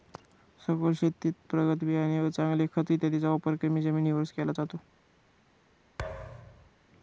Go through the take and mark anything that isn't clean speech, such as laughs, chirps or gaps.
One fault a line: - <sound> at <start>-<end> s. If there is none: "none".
- thud at 6.0-6.7 s